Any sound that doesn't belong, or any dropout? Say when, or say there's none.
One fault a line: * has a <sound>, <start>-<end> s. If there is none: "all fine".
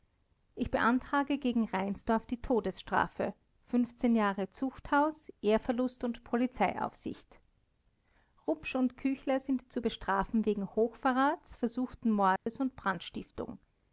* has a dropout, 12.4-12.5 s